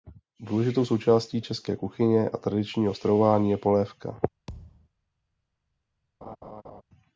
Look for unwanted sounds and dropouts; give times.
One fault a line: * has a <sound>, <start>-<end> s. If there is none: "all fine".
* has a thud, 4.5-4.9 s
* has a laugh, 6.2-6.8 s